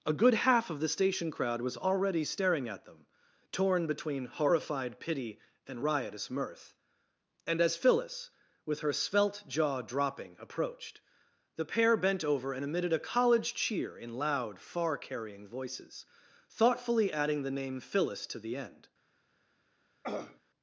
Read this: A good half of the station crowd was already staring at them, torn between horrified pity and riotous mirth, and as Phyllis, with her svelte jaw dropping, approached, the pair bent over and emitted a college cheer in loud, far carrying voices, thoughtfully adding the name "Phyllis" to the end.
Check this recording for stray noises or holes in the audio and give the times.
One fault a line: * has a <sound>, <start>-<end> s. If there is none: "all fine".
* has a throat clearing, 20.0-20.4 s